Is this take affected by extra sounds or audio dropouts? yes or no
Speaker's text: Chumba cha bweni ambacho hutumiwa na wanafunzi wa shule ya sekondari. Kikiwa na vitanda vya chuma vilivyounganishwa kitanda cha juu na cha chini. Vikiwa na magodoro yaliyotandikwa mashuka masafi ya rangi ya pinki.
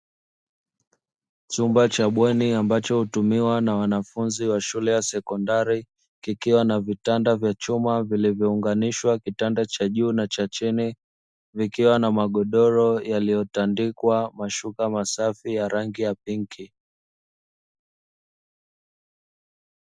no